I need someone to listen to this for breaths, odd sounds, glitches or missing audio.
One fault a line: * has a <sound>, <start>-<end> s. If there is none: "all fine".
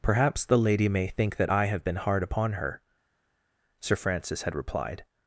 all fine